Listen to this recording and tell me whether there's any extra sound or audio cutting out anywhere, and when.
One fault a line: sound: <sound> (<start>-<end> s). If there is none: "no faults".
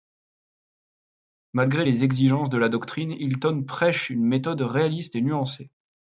no faults